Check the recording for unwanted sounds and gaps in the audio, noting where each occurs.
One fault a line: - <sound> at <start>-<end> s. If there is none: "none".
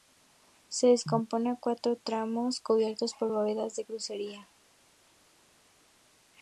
none